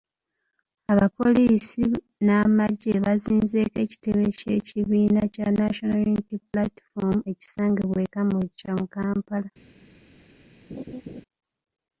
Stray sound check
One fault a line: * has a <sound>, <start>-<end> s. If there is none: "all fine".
* has a laugh, 10.7-11.2 s